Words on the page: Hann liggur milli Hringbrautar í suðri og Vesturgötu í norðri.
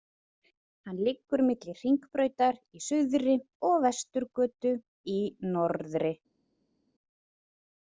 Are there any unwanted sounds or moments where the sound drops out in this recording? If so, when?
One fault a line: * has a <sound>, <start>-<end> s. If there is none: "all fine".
all fine